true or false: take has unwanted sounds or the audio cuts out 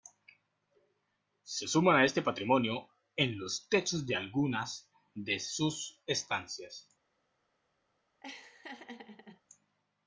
true